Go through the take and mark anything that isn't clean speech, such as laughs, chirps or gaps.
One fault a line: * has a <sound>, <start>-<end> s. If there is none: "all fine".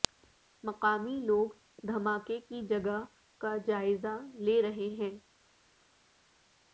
all fine